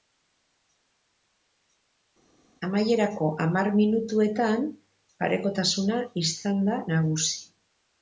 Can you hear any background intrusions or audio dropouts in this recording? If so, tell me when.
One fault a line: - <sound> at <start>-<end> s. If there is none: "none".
none